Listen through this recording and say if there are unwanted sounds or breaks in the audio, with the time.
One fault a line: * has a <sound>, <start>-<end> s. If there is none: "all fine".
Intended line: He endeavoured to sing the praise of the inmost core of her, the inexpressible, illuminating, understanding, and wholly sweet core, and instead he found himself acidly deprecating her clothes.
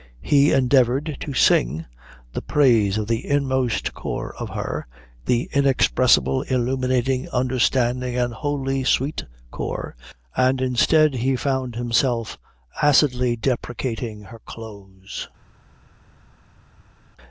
all fine